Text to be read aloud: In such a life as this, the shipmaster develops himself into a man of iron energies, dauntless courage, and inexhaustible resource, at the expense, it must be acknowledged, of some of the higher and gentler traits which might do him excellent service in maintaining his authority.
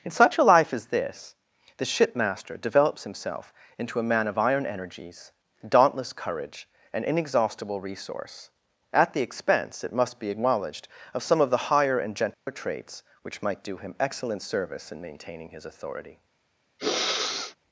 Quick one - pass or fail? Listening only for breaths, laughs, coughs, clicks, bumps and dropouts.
fail